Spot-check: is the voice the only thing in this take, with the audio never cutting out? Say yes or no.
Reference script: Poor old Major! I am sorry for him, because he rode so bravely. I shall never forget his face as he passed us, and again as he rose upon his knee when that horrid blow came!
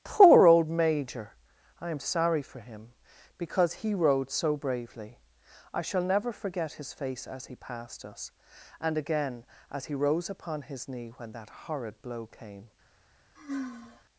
no